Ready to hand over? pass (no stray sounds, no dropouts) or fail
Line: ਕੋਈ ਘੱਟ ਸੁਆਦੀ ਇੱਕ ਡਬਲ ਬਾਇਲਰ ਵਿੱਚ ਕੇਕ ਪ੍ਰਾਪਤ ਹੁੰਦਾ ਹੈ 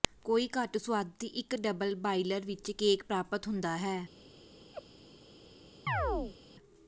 fail